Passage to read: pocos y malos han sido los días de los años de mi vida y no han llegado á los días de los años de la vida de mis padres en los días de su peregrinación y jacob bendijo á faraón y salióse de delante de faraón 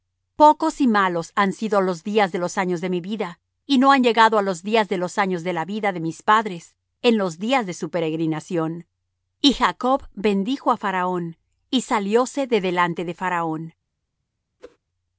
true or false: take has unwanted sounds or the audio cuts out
true